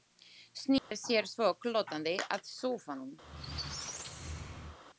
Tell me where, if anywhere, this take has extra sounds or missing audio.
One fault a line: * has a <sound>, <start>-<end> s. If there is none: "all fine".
* has a dropout, 0.8-0.9 s
* has a squeak, 3.2-4.8 s